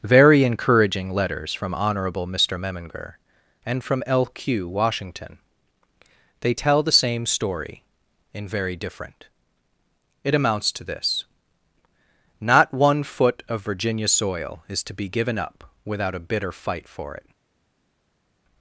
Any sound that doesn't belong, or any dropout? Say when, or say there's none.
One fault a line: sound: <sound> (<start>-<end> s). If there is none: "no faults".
no faults